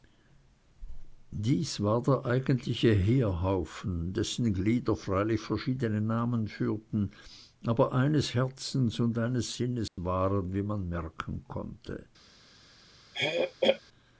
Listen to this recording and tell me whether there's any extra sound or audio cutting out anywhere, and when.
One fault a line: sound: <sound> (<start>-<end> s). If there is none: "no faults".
sound: dropout (9.9-10.0 s)
sound: throat clearing (13.1-13.8 s)